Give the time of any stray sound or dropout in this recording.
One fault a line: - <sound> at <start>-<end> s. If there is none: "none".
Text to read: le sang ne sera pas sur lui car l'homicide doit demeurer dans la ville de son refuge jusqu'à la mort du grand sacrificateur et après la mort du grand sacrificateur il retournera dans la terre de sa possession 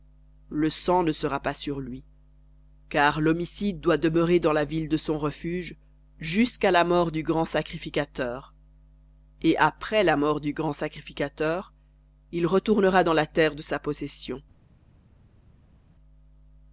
none